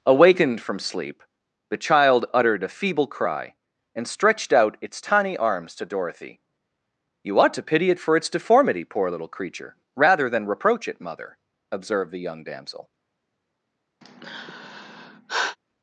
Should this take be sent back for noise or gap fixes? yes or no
yes